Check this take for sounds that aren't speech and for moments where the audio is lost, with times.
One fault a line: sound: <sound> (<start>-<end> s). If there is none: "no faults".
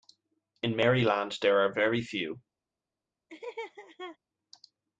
sound: laugh (3.3-4.2 s)